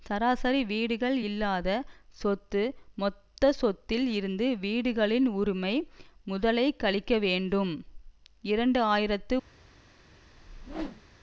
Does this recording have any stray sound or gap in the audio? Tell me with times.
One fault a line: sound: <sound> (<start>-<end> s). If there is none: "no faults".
sound: whoosh (10.3-11.0 s)